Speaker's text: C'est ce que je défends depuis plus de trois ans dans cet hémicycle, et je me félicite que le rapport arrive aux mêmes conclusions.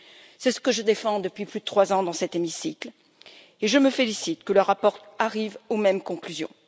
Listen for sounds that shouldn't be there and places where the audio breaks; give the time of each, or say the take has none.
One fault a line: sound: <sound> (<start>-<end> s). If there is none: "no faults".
no faults